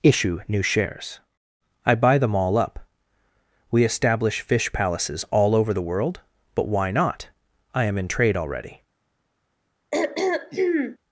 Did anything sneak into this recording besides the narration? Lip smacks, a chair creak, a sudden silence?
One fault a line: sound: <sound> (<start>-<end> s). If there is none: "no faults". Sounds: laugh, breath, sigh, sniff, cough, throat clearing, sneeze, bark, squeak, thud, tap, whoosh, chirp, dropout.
sound: throat clearing (9.9-11.0 s)